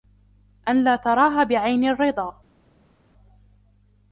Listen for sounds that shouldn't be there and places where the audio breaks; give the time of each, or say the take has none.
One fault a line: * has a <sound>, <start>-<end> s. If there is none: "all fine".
all fine